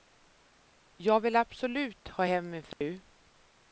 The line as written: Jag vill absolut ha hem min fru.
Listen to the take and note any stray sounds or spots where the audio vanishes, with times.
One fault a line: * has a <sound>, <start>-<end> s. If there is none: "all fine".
* has a dropout, 2.7-2.8 s